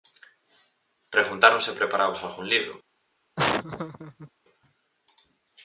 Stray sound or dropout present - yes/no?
yes